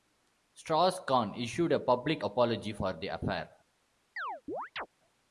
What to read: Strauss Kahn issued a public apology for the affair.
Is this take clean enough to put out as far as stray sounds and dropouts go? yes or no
no